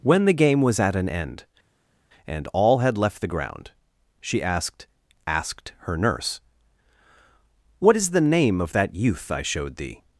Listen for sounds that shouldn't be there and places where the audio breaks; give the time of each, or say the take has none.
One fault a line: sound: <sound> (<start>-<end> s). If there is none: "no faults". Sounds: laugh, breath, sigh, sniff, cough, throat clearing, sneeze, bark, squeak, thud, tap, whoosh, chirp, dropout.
no faults